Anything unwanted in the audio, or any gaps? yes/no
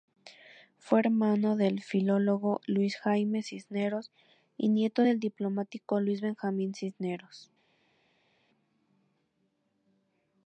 no